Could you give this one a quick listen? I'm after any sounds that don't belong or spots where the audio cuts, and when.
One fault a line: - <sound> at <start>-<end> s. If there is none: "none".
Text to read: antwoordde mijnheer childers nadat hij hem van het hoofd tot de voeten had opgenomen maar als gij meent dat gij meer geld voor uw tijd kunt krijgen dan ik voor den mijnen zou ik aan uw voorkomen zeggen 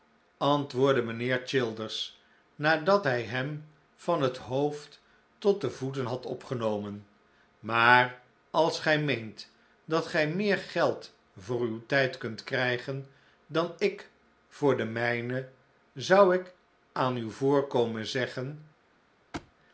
- thud at 19.3-19.5 s